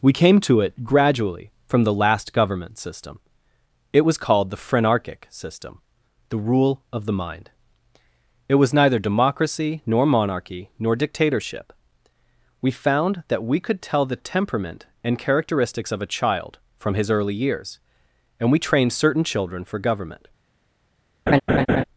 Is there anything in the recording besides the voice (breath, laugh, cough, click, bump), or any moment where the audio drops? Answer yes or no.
yes